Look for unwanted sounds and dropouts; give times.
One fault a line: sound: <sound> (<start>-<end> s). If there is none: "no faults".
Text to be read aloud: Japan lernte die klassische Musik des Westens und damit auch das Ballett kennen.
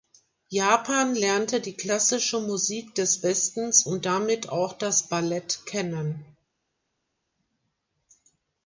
no faults